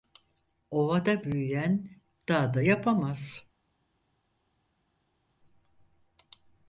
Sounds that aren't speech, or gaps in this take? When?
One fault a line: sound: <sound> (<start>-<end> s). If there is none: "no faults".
no faults